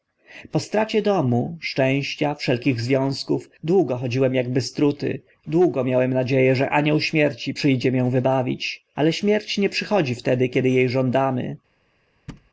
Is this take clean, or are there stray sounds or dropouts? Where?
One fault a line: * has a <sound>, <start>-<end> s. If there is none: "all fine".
* has a thud, 12.3-12.5 s